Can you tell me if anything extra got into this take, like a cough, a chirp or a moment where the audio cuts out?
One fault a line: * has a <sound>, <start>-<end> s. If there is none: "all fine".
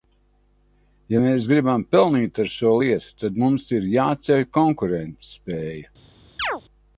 * has a chirp, 6.4-6.6 s